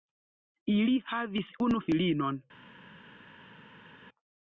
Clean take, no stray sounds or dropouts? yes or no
yes